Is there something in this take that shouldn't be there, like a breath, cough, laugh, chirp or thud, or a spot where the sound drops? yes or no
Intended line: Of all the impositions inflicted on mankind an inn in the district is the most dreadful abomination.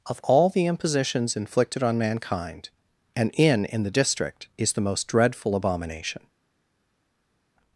no